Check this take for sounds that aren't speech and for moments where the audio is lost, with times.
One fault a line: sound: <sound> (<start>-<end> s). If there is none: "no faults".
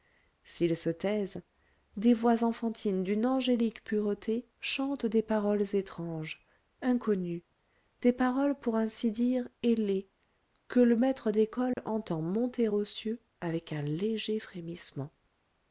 sound: dropout (11.7-11.8 s)